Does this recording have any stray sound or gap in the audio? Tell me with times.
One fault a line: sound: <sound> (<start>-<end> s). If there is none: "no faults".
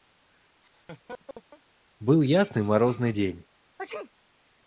sound: laugh (0.6-1.6 s)
sound: sneeze (3.8-4.1 s)